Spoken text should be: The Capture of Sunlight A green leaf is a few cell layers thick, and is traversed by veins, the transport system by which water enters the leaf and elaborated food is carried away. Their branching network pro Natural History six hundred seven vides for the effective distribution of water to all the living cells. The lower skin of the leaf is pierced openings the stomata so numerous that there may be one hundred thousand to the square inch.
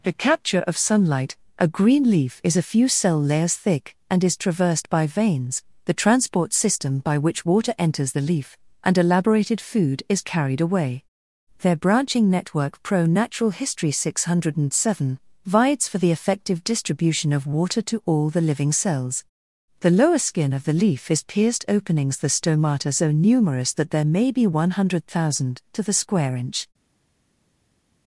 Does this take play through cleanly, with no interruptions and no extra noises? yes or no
yes